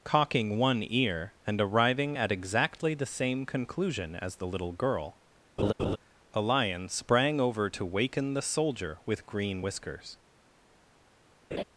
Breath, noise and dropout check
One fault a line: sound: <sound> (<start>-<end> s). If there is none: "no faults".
sound: laugh (5.6-6.0 s)
sound: laugh (11.5-11.6 s)